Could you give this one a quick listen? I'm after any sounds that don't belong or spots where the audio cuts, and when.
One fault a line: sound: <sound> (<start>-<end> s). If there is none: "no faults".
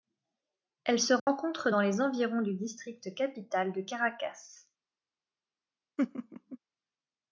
sound: dropout (1.2-1.3 s)
sound: laugh (6.0-6.6 s)